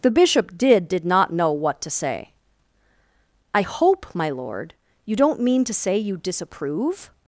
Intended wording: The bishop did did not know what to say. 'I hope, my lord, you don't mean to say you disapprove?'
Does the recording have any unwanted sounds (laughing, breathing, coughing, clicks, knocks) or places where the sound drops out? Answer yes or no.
no